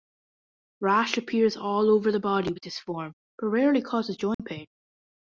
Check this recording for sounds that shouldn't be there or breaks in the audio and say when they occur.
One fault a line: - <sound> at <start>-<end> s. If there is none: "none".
- dropout at 4.3-4.4 s